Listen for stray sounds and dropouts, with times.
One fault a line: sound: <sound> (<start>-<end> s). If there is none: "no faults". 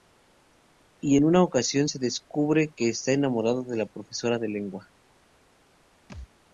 sound: thud (6.1-6.3 s)